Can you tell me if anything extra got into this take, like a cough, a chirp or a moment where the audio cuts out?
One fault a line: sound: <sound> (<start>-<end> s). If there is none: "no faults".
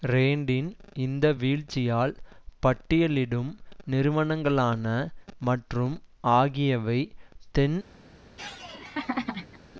sound: laugh (8.4-9.6 s)